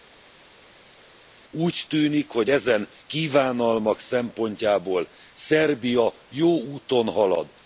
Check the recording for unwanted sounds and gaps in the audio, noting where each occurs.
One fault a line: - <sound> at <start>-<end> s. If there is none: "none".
none